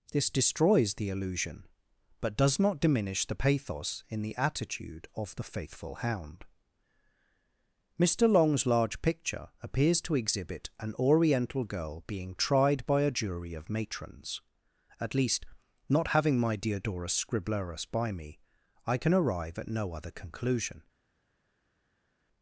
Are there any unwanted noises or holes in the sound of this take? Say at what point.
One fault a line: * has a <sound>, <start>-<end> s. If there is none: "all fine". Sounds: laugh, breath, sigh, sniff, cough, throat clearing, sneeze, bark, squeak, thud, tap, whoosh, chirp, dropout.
all fine